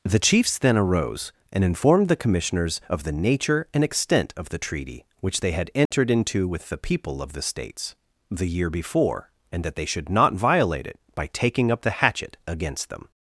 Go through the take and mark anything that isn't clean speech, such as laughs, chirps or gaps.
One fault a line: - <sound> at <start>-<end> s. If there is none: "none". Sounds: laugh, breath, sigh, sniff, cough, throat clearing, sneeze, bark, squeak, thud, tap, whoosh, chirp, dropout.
- dropout at 5.9-5.9 s